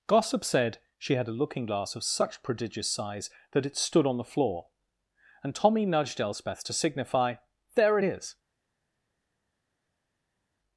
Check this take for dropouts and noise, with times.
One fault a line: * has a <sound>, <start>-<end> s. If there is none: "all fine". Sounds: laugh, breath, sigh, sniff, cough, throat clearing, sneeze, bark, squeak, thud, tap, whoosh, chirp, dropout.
all fine